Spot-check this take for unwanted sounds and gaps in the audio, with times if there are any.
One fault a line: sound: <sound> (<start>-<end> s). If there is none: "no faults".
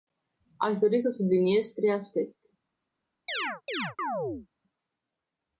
sound: chirp (3.3-4.5 s)